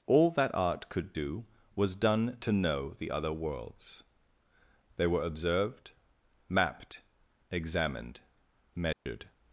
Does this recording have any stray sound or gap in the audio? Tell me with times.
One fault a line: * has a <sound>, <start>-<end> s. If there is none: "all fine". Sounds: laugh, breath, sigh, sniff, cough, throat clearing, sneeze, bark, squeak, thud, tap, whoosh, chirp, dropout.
* has a dropout, 8.9-9.1 s